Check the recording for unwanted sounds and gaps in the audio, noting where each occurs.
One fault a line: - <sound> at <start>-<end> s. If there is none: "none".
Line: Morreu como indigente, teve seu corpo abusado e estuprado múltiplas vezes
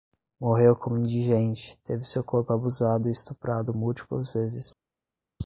none